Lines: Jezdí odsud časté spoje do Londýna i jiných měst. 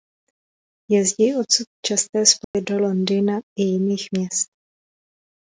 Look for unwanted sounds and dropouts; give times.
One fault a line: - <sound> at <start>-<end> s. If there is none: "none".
- dropout at 2.4-2.5 s